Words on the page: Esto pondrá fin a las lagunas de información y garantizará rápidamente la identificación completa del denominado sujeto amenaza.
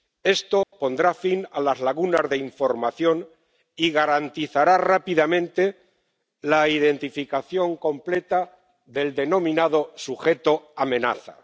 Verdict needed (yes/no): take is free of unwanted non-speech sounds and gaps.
no